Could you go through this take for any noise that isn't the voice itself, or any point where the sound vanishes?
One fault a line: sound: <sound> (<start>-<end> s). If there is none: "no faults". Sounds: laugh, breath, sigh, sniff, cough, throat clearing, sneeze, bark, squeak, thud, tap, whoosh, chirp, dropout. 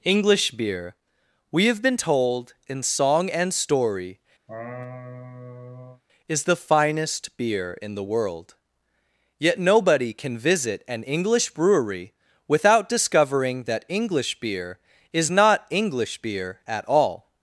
sound: laugh (4.5-6.0 s)